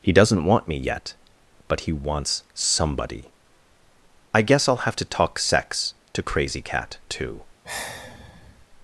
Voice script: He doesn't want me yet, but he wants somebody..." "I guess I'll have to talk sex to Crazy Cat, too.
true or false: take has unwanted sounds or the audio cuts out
true